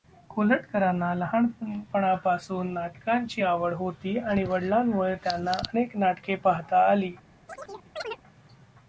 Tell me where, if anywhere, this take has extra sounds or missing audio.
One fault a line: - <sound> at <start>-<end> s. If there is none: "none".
- chirp at 7.5-8.2 s